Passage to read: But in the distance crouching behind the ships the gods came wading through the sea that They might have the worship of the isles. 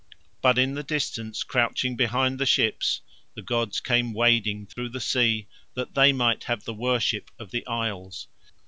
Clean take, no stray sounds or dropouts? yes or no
no